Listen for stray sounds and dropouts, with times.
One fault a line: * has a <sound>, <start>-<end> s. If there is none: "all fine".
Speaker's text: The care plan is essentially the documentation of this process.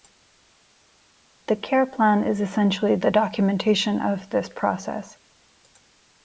all fine